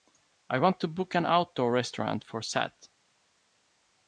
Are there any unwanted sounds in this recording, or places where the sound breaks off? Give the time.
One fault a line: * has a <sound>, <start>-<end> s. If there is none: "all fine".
all fine